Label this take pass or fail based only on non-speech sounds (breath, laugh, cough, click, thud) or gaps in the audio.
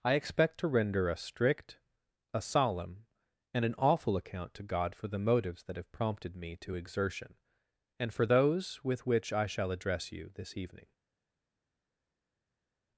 pass